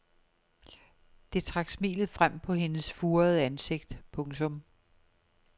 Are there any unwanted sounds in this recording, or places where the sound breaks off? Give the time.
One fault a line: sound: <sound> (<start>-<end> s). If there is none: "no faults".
no faults